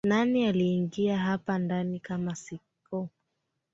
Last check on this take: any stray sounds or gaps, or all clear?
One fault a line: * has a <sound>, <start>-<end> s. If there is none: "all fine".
all fine